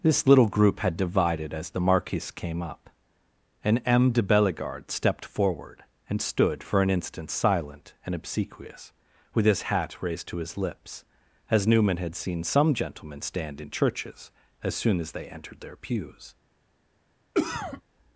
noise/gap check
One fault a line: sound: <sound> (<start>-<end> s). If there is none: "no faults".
sound: cough (17.3-17.8 s)